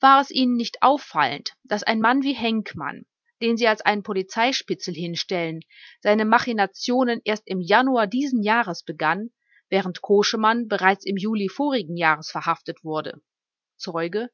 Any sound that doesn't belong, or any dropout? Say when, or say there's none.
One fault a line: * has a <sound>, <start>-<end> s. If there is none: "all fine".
all fine